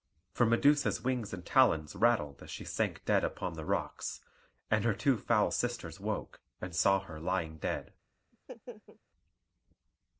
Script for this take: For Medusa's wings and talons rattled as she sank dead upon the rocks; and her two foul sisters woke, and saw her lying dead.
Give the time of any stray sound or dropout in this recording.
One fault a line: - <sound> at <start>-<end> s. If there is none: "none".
- laugh at 8.3-9.0 s